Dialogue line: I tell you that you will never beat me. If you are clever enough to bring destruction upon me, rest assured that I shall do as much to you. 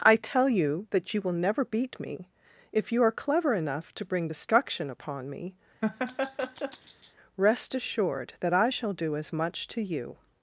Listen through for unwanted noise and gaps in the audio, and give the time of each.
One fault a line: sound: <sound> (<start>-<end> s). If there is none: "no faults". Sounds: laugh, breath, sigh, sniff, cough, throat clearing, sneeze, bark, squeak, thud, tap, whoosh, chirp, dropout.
sound: laugh (5.8-7.1 s)